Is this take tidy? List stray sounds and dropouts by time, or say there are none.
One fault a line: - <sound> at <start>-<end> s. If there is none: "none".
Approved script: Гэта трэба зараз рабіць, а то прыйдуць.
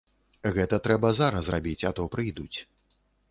none